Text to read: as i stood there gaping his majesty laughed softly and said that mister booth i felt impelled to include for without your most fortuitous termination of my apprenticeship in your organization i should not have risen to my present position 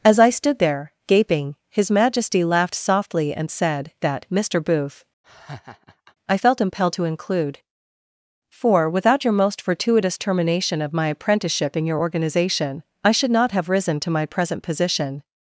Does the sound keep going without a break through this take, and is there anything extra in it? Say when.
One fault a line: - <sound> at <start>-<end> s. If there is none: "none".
- laugh at 5.2-6.2 s